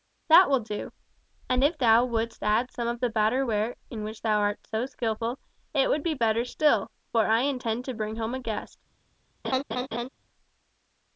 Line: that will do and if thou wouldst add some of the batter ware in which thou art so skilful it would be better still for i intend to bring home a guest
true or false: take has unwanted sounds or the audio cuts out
true